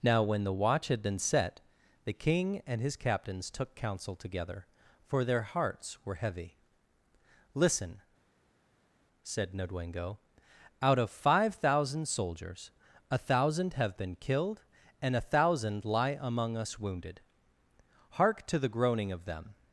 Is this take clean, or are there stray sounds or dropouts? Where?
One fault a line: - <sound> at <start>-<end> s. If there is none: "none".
none